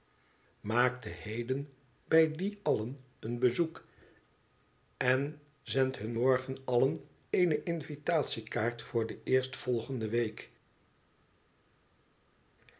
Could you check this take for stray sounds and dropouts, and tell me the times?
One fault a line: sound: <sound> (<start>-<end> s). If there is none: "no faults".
no faults